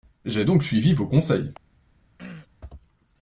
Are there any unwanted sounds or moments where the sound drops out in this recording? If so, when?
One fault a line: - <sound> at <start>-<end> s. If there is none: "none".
- throat clearing at 2.2-2.5 s